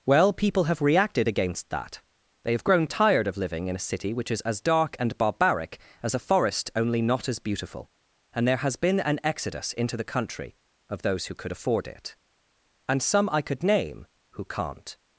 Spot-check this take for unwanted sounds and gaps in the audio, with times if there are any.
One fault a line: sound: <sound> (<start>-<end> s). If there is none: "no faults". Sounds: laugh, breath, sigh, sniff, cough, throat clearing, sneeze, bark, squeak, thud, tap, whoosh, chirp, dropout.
no faults